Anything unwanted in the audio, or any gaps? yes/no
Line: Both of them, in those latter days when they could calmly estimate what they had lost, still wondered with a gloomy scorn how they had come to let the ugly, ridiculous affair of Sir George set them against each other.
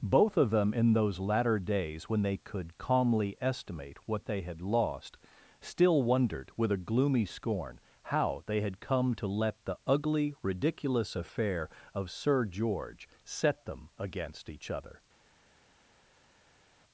no